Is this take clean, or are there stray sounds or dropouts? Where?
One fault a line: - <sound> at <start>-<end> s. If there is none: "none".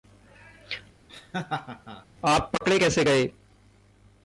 - laugh at 1.1-2.1 s